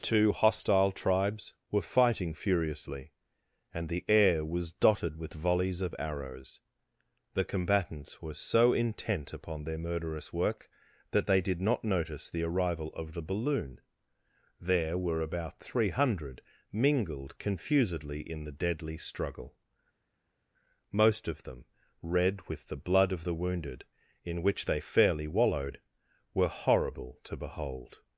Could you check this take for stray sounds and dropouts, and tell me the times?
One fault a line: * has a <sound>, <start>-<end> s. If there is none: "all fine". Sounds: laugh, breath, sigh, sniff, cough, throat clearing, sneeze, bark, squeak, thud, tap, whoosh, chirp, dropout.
all fine